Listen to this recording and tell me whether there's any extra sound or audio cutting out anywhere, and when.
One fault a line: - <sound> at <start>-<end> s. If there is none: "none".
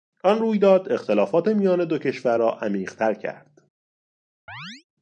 - chirp at 4.5-4.8 s